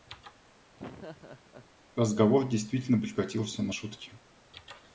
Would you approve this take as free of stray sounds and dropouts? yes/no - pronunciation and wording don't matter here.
no